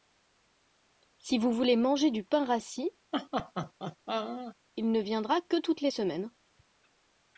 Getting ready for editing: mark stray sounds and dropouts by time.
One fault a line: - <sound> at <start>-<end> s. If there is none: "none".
- laugh at 3.1-4.6 s